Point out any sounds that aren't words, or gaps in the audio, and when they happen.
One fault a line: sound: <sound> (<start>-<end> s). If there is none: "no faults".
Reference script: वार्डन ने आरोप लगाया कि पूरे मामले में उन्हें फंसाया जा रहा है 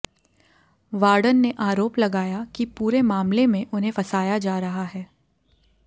no faults